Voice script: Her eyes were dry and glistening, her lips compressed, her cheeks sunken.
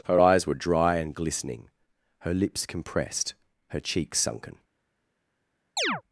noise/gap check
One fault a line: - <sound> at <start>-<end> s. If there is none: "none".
- chirp at 5.8-6.0 s